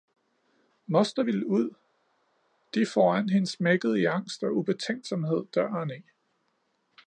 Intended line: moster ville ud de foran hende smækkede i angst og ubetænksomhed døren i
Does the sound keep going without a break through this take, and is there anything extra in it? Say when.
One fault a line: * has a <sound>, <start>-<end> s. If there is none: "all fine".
all fine